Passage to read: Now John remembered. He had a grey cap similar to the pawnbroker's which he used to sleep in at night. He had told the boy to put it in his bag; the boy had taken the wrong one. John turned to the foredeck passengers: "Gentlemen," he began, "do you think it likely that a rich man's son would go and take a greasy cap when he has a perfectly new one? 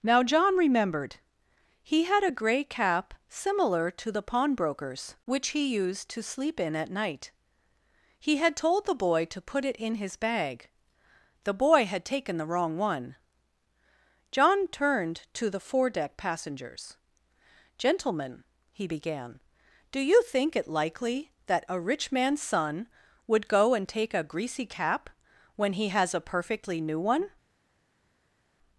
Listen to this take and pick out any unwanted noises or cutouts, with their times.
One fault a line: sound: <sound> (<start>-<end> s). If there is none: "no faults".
no faults